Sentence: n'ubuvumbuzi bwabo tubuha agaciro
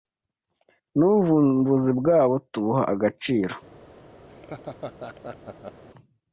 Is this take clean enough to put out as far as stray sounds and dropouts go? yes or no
no